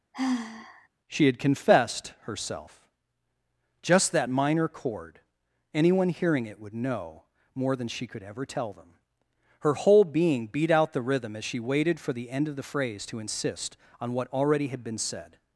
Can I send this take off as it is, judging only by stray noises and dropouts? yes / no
no